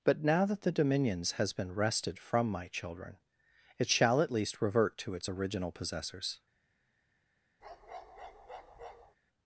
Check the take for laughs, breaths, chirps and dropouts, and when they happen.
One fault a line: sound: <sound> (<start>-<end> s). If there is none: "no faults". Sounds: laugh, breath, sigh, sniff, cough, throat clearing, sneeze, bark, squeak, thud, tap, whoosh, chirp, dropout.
sound: bark (7.6-9.2 s)